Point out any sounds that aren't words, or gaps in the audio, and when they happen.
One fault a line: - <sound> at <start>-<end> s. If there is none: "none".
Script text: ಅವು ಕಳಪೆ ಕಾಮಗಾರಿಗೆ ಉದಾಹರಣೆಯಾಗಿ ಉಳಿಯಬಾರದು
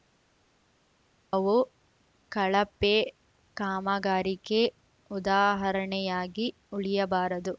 none